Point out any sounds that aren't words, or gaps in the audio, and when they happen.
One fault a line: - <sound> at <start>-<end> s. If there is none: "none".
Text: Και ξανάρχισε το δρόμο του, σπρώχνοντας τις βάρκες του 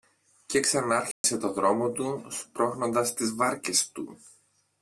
- dropout at 1.1-1.2 s